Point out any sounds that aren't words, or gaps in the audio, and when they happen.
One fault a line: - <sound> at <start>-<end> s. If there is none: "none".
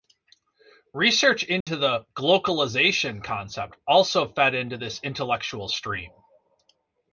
- dropout at 1.6-1.7 s